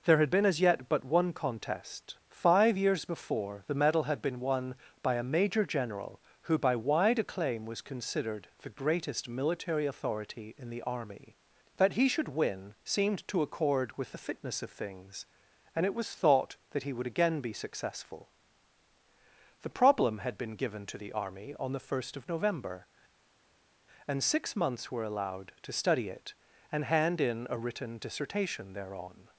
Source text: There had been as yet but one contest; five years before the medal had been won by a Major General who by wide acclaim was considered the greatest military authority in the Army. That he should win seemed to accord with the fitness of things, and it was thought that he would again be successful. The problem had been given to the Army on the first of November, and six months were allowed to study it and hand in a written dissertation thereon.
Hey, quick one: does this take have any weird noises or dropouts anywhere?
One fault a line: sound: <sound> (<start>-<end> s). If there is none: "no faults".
no faults